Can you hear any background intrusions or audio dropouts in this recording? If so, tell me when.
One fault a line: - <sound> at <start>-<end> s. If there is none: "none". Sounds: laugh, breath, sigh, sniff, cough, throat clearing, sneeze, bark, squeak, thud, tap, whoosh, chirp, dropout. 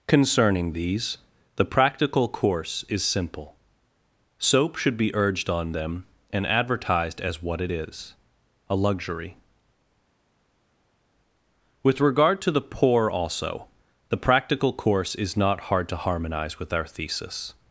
none